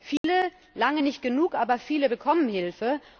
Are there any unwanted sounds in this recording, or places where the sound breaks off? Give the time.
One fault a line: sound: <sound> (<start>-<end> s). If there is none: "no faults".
sound: dropout (0.2-0.2 s)